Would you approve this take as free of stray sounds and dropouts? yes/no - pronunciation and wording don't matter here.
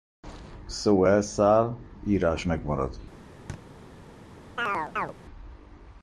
no